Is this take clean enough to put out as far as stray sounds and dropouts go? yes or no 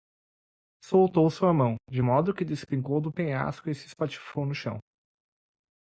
yes